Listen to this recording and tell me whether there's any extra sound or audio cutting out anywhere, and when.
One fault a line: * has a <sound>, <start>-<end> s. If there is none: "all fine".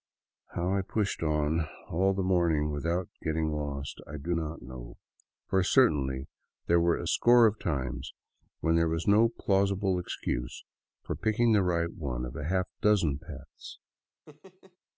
* has a laugh, 14.3-14.8 s